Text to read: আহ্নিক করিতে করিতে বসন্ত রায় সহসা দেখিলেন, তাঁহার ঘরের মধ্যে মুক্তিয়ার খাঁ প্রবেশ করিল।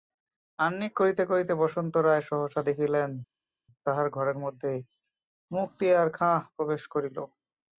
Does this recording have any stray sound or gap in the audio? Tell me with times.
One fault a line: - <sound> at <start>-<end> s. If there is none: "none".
none